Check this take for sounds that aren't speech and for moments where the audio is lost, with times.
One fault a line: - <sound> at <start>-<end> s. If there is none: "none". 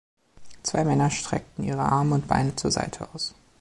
none